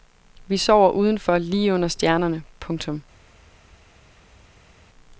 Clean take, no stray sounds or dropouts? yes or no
yes